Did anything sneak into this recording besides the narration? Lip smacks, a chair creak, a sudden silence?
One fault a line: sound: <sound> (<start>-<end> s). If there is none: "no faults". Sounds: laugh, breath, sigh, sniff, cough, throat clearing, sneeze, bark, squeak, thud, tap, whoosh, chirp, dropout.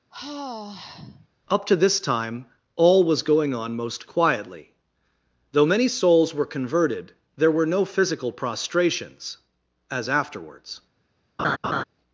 sound: sigh (0.1-1.3 s)
sound: laugh (11.4-11.8 s)